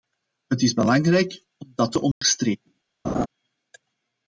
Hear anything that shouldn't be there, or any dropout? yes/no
yes